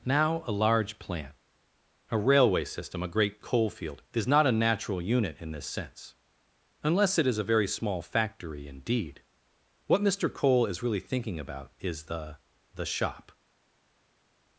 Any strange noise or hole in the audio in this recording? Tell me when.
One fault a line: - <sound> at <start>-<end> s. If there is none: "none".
none